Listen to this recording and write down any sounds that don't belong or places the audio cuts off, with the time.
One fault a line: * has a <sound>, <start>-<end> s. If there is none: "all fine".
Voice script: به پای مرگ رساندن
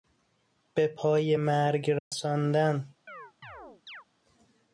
* has a dropout, 2.0-2.1 s
* has a chirp, 3.1-4.0 s